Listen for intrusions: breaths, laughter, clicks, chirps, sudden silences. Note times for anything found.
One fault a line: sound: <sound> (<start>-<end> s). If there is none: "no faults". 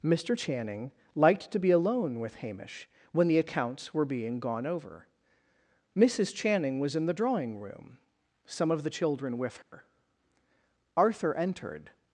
sound: dropout (9.6-9.7 s)